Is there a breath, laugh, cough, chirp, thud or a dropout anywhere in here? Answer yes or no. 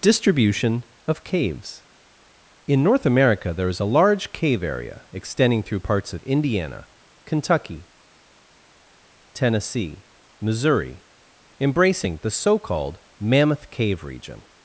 no